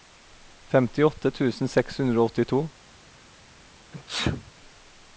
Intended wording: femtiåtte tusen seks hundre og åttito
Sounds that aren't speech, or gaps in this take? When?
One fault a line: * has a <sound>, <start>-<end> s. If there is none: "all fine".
* has a sneeze, 3.9-4.5 s